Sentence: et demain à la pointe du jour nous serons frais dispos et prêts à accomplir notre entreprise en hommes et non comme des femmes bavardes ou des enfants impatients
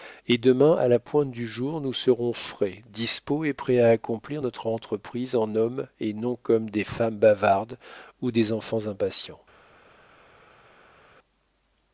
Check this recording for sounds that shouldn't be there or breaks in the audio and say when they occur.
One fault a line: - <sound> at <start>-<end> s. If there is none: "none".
none